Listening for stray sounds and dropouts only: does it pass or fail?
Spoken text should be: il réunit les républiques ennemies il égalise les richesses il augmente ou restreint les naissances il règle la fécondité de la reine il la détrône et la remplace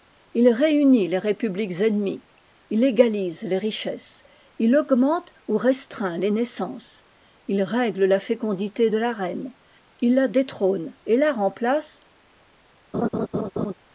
fail